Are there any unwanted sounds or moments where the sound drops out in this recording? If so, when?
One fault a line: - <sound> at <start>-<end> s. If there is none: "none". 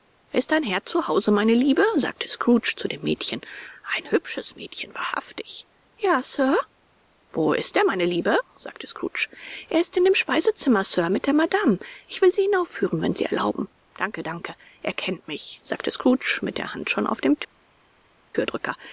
none